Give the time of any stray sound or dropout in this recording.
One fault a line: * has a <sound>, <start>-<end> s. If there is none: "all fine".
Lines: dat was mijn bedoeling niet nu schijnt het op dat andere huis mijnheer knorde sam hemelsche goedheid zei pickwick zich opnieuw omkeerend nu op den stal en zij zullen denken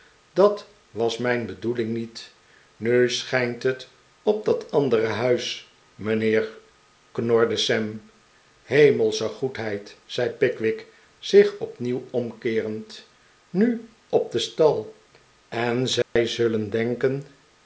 * has a dropout, 16.0-16.2 s